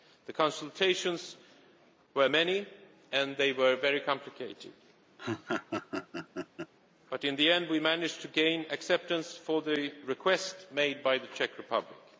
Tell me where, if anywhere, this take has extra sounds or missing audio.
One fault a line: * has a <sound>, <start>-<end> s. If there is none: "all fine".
* has a laugh, 5.2-6.7 s